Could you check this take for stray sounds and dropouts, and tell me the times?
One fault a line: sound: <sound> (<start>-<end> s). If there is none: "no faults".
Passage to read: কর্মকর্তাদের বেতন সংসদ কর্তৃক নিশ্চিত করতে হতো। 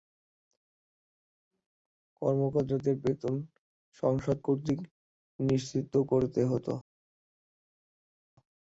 no faults